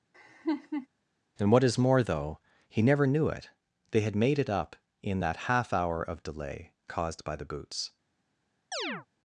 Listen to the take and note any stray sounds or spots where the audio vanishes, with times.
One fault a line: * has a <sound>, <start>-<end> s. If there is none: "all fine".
* has a laugh, 0.1-0.9 s
* has a chirp, 8.7-9.1 s